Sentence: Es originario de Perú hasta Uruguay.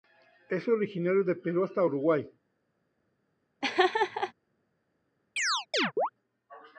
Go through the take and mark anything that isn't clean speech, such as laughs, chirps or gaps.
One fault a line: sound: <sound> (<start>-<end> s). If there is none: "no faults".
sound: laugh (3.6-4.3 s)
sound: chirp (5.4-6.1 s)